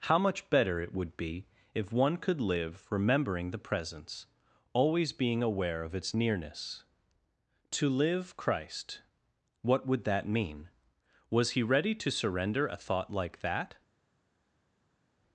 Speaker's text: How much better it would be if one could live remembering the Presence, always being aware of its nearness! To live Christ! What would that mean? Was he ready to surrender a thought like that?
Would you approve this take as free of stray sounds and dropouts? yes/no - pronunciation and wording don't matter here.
yes